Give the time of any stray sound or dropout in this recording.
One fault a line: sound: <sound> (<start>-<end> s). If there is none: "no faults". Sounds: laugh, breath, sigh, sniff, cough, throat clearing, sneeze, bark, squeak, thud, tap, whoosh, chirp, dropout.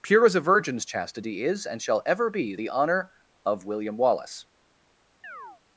sound: chirp (5.2-5.6 s)